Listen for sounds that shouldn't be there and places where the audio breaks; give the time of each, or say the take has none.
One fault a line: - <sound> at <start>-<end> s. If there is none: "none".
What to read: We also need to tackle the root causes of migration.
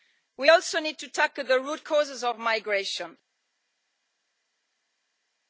none